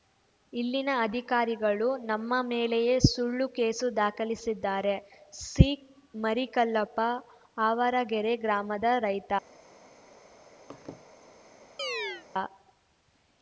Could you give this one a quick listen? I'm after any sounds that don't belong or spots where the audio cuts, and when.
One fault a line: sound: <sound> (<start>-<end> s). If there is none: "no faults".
sound: laugh (10.7-11.0 s)
sound: chirp (11.8-12.3 s)